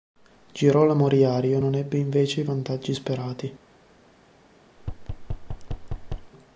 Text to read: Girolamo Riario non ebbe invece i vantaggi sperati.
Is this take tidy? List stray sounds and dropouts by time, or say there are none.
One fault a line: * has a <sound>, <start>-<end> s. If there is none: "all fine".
* has a thud, 4.8-6.3 s